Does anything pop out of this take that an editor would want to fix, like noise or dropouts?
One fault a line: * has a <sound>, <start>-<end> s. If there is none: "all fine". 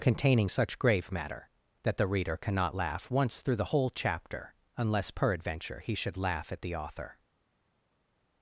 all fine